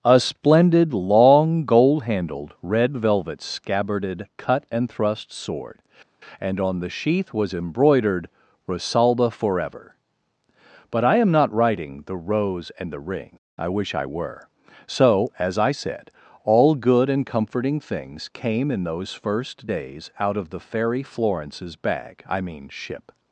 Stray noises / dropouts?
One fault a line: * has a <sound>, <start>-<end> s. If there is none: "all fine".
all fine